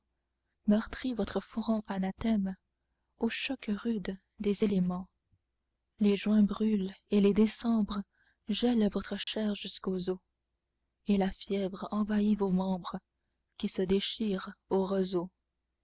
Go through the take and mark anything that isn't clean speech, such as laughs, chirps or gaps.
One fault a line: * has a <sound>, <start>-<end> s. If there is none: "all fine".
* has a dropout, 9.2-9.3 s